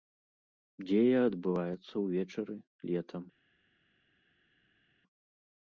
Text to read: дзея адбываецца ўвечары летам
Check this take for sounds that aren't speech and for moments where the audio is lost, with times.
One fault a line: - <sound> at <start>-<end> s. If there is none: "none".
none